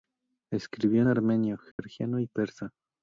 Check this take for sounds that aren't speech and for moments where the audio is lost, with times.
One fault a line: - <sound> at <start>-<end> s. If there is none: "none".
- dropout at 1.7-1.8 s